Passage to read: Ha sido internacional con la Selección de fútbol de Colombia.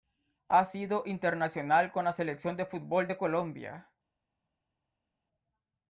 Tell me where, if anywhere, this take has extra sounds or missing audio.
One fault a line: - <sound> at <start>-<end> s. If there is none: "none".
none